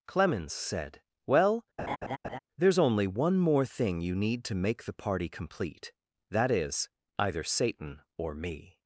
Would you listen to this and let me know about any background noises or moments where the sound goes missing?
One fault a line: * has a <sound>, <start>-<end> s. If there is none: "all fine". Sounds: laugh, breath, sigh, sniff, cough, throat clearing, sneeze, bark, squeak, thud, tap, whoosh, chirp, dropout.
* has a laugh, 1.8-2.4 s